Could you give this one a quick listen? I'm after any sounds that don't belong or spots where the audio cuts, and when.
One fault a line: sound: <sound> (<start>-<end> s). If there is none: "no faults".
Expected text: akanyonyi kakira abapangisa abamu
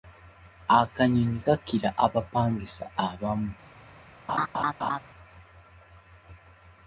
sound: laugh (4.3-5.0 s)